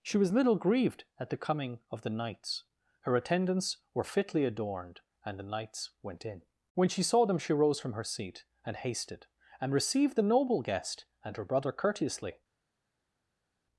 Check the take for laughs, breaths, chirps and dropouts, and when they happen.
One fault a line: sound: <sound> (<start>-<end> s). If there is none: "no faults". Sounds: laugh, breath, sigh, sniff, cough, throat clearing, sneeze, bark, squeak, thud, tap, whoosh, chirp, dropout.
no faults